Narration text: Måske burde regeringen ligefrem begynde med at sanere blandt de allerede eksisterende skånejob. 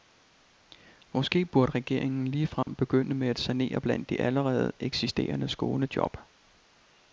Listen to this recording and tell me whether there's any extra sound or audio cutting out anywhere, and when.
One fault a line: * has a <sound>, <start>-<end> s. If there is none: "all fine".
* has a dropout, 2.6-2.7 s